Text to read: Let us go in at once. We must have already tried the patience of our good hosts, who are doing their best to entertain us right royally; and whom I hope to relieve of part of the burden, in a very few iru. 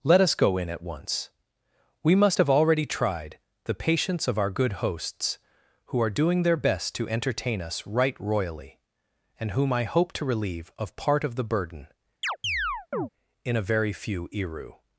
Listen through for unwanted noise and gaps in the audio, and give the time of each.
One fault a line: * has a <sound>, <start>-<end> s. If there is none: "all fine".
* has a chirp, 12.2-13.1 s